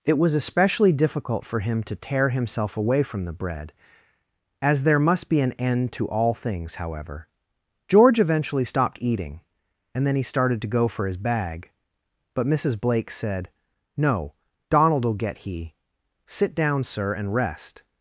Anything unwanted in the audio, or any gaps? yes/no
no